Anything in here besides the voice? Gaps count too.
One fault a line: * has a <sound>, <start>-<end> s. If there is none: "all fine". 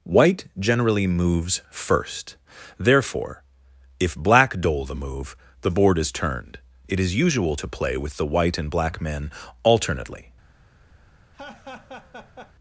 * has a laugh, 11.3-12.5 s